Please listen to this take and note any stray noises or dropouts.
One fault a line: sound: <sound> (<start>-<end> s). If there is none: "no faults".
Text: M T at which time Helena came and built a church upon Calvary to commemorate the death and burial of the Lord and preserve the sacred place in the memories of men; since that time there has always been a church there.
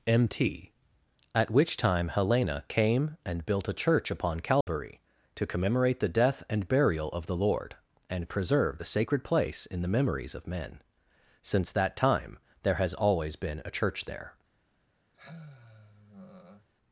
sound: dropout (4.6-4.7 s)
sound: sigh (15.1-16.7 s)